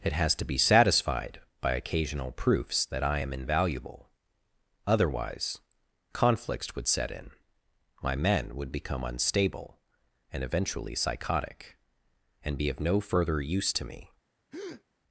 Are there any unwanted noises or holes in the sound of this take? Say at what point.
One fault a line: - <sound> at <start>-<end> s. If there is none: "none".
- breath at 14.5-14.8 s